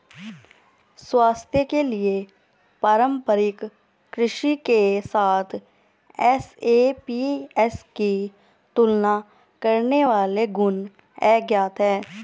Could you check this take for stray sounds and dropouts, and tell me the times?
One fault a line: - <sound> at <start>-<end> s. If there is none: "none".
none